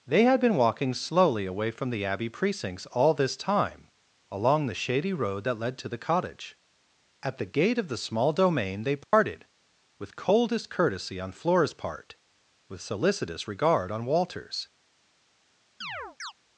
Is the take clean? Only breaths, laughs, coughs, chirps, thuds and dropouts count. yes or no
no